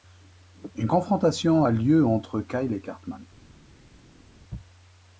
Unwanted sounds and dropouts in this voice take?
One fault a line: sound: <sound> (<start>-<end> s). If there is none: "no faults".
no faults